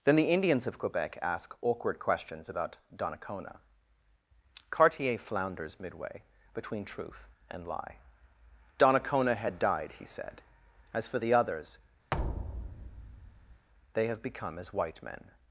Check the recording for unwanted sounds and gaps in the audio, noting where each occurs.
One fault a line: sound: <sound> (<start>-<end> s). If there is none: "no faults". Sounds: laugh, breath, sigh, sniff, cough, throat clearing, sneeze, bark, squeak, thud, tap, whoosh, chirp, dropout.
sound: thud (12.1-13.7 s)